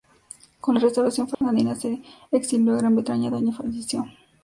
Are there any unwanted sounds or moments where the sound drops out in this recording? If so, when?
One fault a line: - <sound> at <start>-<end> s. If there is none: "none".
- dropout at 1.3-1.4 s